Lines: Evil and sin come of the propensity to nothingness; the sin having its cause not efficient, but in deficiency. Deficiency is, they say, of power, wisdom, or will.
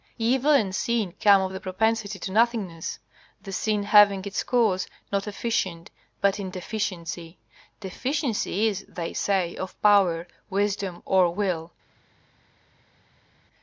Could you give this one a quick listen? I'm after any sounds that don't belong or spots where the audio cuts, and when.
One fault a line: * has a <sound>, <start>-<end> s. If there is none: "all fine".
all fine